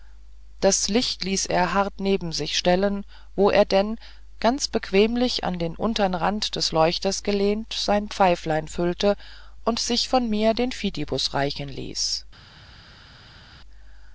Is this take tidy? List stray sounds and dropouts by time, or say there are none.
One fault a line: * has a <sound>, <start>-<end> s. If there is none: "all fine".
all fine